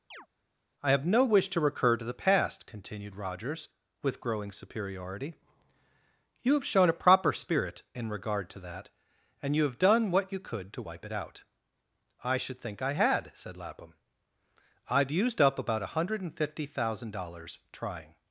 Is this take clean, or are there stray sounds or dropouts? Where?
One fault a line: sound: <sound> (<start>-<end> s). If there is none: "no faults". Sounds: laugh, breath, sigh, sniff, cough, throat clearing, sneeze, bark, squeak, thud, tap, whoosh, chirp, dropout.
sound: chirp (0.1-0.3 s)